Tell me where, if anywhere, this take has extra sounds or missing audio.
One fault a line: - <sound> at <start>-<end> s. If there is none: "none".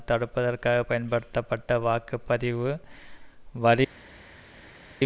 none